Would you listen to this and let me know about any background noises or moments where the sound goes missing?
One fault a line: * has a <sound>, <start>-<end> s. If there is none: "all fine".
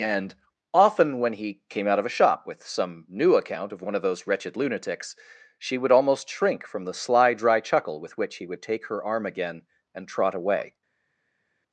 all fine